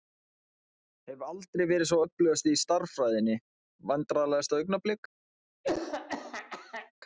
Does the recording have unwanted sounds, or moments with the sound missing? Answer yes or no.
yes